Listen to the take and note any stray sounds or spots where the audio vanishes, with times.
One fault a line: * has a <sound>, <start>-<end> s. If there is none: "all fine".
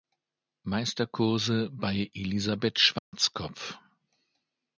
* has a dropout, 3.0-3.1 s